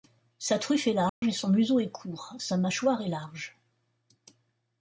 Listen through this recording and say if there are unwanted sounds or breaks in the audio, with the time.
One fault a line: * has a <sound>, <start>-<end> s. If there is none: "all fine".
* has a dropout, 1.1-1.2 s